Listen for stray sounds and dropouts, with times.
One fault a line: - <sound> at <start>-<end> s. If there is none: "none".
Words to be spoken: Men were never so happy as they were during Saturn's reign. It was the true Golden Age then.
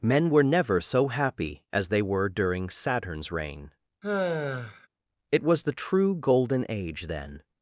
- sigh at 4.0-4.9 s